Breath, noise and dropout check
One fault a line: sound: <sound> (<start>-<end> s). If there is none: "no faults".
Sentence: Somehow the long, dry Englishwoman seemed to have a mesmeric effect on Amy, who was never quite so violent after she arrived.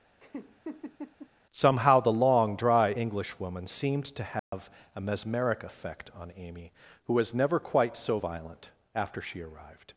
sound: laugh (0.2-1.3 s)
sound: dropout (4.4-4.5 s)